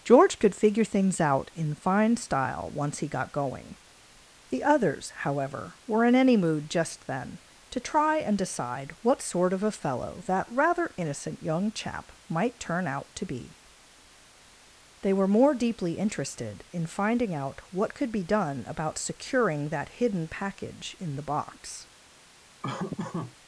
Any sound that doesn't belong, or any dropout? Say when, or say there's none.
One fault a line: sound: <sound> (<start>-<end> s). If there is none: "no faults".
sound: laugh (22.6-23.4 s)